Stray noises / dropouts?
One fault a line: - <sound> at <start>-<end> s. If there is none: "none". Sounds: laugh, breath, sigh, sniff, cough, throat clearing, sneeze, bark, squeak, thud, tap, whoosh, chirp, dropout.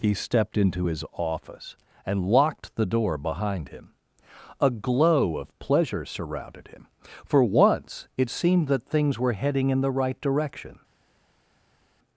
none